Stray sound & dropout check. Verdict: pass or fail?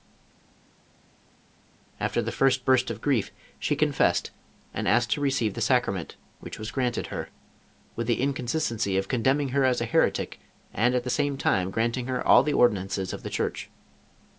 pass